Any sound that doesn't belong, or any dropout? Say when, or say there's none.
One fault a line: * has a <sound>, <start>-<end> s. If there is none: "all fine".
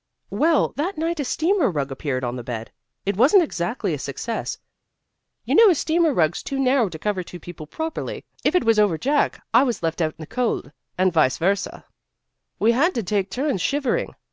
all fine